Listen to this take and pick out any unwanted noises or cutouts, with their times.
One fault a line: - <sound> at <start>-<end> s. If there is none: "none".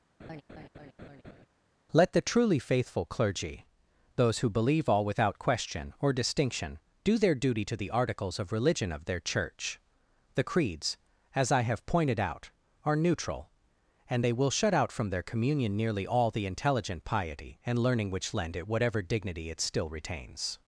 - laugh at 0.2-1.5 s